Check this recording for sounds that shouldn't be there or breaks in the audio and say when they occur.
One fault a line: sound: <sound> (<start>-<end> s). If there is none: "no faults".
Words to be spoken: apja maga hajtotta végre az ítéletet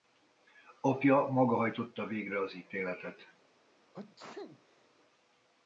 sound: sneeze (3.9-4.9 s)